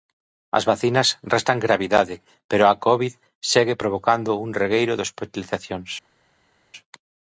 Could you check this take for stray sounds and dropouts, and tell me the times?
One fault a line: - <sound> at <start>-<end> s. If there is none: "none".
none